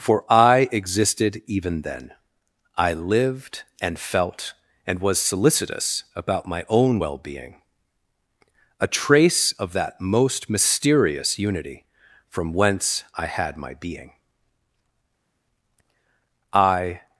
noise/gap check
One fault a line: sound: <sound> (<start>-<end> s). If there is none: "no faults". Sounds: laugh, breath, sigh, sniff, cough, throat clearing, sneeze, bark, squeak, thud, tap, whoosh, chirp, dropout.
no faults